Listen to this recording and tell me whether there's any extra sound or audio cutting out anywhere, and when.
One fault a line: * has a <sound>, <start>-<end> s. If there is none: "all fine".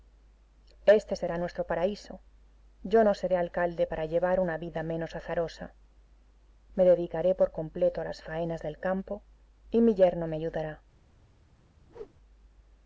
* has a whoosh, 11.9-12.1 s